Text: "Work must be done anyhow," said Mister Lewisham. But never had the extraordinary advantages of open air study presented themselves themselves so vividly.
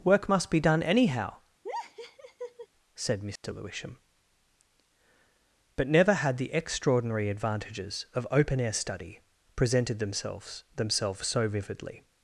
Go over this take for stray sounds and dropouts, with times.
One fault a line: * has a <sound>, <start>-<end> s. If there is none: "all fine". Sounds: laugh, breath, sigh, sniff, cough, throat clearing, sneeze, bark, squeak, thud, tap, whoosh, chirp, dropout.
* has a laugh, 1.6-2.7 s
* has a dropout, 3.4-3.4 s